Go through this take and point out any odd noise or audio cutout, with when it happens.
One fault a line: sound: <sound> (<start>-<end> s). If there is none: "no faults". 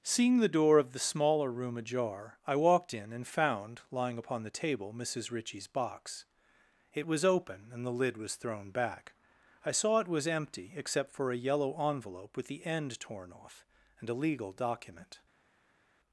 no faults